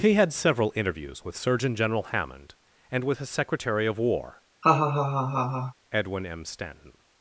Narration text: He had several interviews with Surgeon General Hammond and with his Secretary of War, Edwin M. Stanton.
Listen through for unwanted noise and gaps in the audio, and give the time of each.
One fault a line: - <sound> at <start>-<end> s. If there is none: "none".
- laugh at 4.6-5.7 s